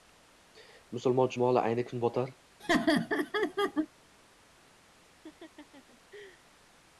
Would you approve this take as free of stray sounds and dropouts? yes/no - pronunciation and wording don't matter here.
no